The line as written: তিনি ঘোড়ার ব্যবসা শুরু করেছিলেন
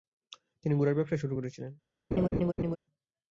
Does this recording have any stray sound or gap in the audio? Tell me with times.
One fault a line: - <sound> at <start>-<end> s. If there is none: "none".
- laugh at 2.1-2.8 s